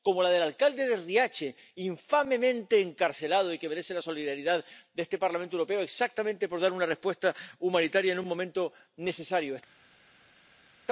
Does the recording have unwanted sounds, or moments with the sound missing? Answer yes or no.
no